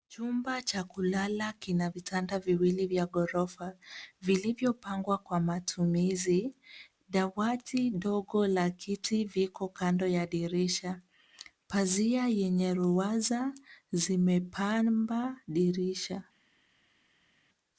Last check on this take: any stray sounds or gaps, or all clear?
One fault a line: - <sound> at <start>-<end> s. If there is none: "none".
none